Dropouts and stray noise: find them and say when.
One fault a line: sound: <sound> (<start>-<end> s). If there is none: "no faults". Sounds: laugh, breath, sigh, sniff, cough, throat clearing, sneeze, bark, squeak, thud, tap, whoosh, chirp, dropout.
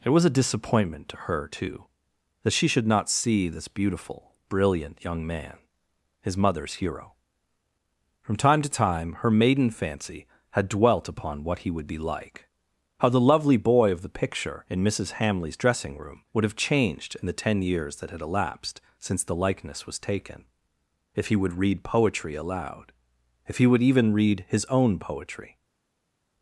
no faults